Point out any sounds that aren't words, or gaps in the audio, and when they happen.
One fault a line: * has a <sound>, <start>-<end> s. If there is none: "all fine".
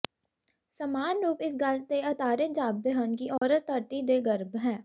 * has a dropout, 3.4-3.4 s